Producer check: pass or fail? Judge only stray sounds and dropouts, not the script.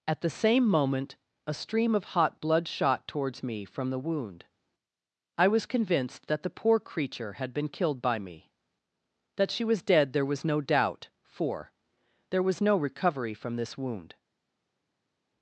pass